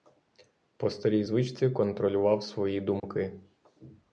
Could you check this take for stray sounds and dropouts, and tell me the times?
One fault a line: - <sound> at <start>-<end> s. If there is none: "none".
- dropout at 3.0-3.0 s